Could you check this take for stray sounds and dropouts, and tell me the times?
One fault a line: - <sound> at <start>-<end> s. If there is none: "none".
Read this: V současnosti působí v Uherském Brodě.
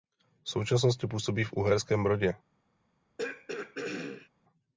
- throat clearing at 3.2-4.3 s